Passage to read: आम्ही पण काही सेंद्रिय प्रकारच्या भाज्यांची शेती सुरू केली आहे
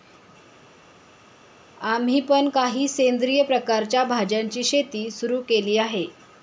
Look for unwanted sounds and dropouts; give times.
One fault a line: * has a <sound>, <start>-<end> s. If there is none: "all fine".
all fine